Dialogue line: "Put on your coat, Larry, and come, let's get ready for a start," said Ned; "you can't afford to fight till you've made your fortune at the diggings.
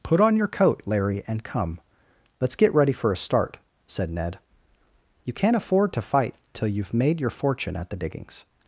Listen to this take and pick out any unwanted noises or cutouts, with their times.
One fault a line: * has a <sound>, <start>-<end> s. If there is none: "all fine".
all fine